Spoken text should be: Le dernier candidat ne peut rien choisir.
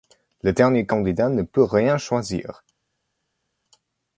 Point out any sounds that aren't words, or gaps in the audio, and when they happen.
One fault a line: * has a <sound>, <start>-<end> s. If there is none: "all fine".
all fine